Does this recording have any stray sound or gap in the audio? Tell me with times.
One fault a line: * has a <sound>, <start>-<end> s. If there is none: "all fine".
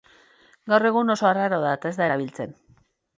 all fine